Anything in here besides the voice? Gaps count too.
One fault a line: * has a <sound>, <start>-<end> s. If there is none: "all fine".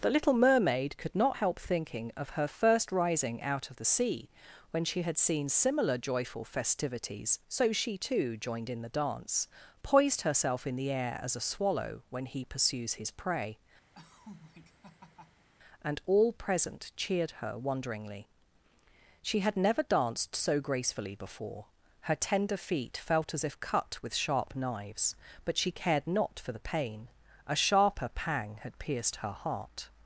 * has a laugh, 13.9-15.5 s